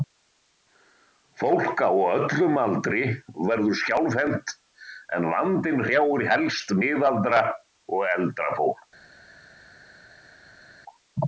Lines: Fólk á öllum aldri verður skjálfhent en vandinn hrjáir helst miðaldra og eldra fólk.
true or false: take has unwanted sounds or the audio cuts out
false